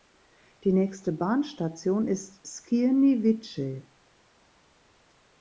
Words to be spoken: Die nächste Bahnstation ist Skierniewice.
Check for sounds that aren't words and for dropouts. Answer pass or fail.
pass